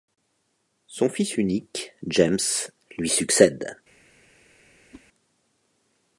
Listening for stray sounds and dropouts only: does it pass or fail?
fail